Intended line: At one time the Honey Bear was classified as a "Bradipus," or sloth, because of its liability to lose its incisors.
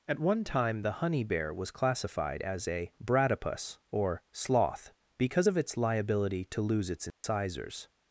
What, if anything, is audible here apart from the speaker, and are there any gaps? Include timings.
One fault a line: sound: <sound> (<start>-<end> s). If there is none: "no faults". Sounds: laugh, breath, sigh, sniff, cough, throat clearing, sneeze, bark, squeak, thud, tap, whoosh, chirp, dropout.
sound: dropout (7.1-7.2 s)